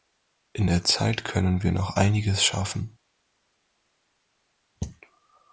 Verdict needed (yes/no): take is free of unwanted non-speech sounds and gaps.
yes